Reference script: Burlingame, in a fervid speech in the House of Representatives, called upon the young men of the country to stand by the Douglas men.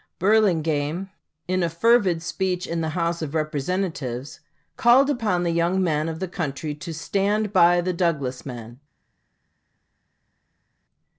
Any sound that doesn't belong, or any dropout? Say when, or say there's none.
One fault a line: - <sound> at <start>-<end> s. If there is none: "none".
none